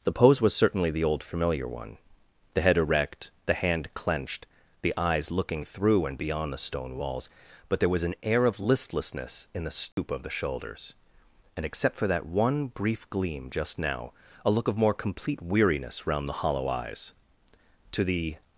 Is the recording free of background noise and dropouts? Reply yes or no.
no